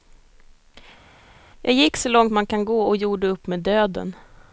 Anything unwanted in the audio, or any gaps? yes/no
no